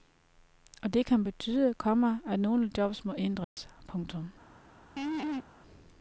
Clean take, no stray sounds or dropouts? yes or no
no